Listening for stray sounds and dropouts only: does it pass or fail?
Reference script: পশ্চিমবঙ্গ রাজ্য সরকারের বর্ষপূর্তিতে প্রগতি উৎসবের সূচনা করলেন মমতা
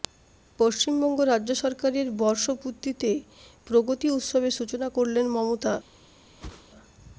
fail